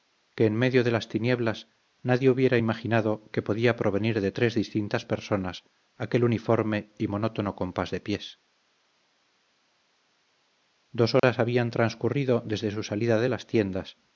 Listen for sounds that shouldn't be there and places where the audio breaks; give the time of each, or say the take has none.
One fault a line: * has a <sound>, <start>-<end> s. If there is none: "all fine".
* has a dropout, 11.2-11.2 s